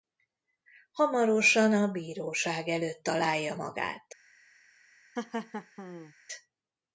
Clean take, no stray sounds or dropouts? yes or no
no